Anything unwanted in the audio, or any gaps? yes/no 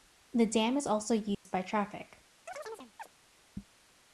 yes